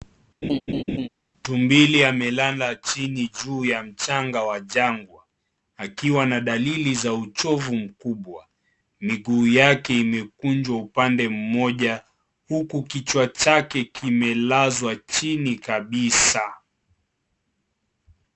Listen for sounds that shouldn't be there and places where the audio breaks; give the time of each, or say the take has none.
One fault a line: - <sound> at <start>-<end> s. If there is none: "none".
- laugh at 0.4-1.1 s